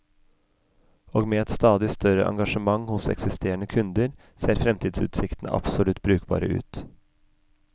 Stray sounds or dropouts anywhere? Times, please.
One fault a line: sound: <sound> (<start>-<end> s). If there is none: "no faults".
no faults